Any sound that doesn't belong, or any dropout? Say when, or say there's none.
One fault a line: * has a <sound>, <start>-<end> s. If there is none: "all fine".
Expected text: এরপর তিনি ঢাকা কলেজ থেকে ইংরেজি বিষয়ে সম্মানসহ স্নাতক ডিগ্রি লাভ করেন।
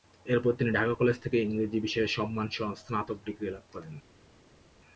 all fine